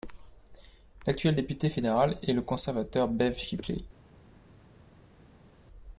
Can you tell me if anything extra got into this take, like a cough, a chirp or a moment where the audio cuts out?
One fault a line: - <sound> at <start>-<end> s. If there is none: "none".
none